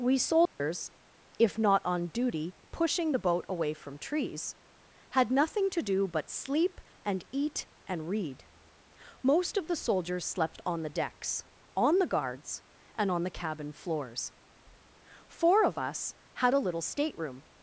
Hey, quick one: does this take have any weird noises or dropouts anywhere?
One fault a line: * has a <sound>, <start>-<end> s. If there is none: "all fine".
* has a dropout, 0.5-0.6 s